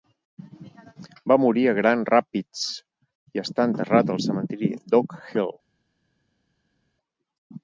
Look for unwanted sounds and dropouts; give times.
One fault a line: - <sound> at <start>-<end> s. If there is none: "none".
none